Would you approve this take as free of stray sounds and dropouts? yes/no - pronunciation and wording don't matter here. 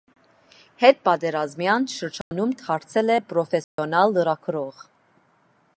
no